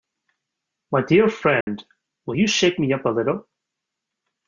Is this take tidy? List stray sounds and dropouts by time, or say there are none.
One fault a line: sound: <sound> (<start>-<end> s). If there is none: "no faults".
sound: dropout (1.6-1.7 s)